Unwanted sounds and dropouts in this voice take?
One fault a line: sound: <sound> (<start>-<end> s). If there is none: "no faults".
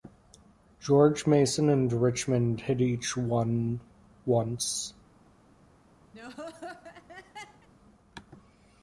sound: laugh (6.1-7.7 s)